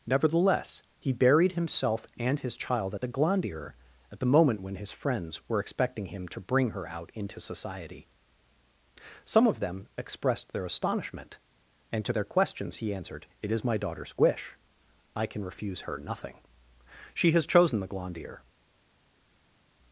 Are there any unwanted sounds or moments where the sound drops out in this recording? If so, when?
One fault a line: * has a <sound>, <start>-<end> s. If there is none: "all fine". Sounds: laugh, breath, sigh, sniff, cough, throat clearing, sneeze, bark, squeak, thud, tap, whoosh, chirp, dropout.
all fine